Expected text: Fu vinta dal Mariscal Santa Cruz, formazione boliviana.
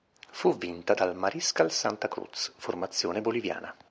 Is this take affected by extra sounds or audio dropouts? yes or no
no